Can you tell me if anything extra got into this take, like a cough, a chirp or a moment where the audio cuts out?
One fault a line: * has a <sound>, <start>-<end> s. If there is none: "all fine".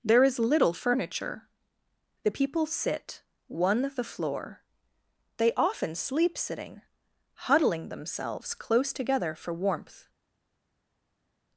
all fine